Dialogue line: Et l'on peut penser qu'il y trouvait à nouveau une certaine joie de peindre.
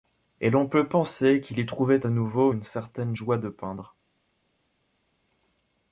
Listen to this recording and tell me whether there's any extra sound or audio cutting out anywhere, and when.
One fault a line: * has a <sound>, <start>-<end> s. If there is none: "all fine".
all fine